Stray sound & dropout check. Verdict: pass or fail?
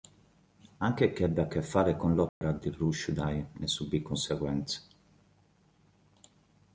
fail